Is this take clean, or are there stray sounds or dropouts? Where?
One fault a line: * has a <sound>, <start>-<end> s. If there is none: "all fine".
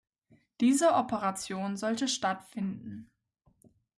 all fine